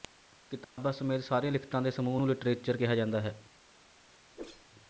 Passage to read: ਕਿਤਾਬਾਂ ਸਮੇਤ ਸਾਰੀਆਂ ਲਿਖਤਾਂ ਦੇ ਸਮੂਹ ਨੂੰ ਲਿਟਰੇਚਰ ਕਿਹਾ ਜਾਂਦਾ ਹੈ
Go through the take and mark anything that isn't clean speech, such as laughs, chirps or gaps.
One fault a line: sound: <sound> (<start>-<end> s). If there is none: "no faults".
sound: dropout (0.6-0.8 s)
sound: whoosh (4.3-4.7 s)